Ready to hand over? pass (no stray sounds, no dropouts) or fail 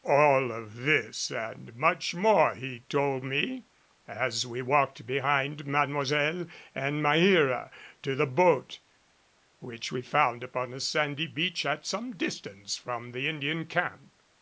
pass